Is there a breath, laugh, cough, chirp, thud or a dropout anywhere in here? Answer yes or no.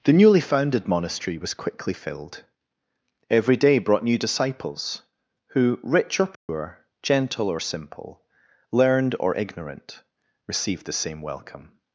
yes